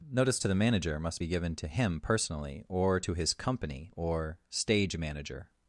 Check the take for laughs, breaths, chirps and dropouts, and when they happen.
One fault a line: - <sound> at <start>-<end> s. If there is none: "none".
none